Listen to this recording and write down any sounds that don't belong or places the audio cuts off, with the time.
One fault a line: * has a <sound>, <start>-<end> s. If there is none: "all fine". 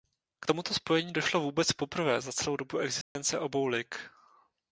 * has a dropout, 3.0-3.2 s